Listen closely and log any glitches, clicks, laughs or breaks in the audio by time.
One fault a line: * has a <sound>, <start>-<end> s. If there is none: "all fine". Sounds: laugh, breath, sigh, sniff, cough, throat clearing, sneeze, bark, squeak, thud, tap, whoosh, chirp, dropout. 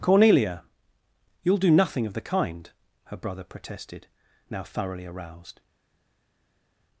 all fine